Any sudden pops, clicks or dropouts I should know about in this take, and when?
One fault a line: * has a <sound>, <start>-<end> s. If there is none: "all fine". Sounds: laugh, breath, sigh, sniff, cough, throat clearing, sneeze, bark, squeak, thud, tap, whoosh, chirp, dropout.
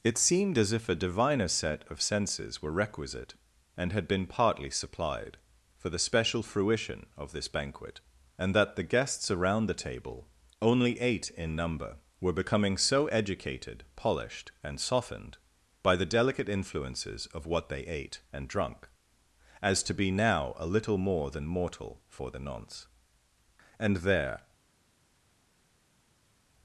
all fine